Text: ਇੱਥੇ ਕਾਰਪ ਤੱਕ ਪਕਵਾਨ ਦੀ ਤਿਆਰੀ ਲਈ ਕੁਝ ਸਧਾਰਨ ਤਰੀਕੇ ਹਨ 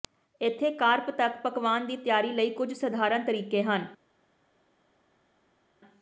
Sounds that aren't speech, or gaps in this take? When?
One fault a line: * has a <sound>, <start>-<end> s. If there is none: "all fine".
all fine